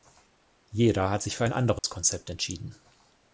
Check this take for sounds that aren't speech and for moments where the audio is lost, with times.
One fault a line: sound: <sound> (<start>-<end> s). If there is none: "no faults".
sound: dropout (1.8-1.8 s)